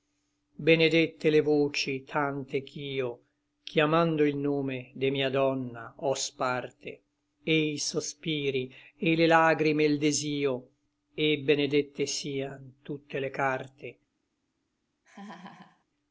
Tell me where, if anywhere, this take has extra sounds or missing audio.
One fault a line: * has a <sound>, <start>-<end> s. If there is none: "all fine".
* has a laugh, 15.0-15.8 s